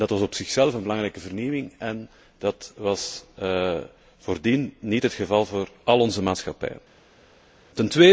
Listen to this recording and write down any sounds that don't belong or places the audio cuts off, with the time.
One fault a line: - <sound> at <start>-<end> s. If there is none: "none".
none